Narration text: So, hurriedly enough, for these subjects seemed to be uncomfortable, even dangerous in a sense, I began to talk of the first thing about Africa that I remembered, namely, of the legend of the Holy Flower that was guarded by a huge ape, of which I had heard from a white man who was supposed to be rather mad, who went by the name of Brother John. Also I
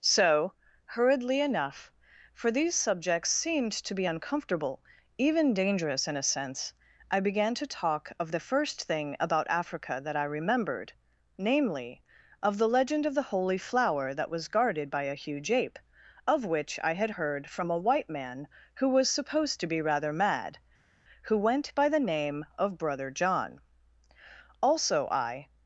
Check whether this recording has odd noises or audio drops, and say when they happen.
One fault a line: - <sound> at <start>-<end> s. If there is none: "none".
none